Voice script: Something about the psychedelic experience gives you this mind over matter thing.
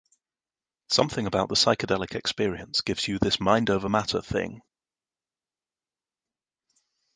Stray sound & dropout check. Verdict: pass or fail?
pass